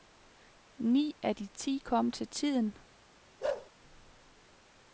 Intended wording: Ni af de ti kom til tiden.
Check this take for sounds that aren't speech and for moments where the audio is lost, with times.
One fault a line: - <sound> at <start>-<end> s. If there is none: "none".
- bark at 3.4-3.7 s